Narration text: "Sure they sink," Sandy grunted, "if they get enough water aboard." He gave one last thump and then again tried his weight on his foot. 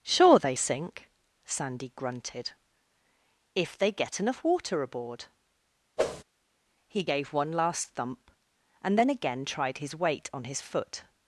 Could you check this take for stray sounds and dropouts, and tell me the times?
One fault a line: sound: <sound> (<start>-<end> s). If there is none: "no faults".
sound: whoosh (6.0-6.2 s)